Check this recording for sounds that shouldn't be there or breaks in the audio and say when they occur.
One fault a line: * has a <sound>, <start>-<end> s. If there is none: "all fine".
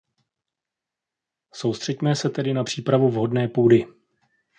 all fine